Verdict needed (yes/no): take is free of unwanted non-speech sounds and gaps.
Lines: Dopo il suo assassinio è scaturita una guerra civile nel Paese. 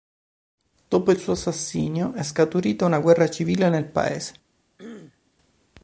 no